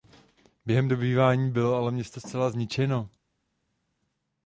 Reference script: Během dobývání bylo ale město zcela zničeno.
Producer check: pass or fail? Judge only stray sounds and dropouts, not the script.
pass